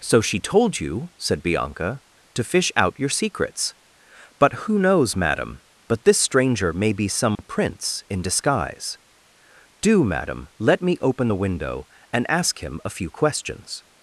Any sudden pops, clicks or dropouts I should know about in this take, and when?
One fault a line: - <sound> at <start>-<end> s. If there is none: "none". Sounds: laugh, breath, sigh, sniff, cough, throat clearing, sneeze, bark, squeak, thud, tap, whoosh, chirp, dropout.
- dropout at 7.4-7.4 s